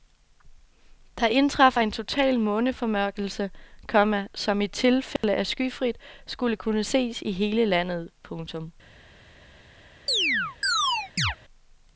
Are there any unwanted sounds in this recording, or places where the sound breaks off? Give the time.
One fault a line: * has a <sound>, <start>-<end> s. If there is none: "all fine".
* has a dropout, 5.2-5.2 s
* has a chirp, 10.1-11.4 s